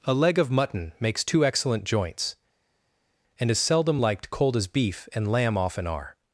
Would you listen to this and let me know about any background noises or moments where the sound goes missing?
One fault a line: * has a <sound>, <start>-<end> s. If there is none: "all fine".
all fine